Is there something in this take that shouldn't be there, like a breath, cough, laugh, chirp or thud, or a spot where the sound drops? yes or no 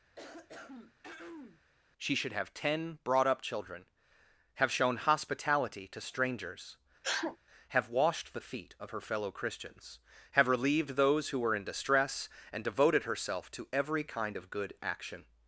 yes